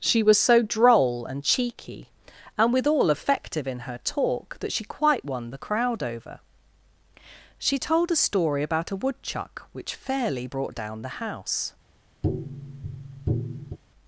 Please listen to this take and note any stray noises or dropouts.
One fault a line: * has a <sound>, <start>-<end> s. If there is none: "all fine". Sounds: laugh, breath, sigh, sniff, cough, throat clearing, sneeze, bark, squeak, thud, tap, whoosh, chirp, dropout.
* has a tap, 12.2-13.8 s